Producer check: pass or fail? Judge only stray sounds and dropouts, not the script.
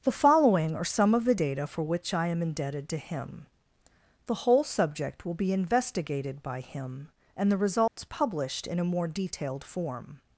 fail